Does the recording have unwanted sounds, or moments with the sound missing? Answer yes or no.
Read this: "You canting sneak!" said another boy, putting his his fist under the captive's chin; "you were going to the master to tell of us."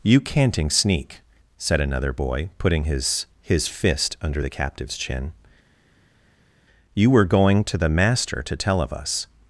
no